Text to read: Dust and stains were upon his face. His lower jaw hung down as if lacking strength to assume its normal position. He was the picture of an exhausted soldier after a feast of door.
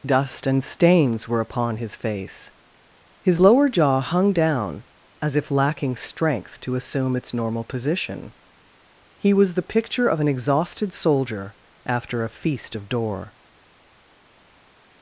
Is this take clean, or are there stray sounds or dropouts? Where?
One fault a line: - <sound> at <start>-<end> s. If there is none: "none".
none